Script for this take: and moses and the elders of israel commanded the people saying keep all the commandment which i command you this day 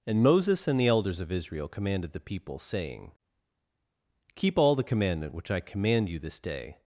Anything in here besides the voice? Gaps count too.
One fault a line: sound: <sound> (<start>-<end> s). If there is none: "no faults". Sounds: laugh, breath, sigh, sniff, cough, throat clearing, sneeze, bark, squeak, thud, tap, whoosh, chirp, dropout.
no faults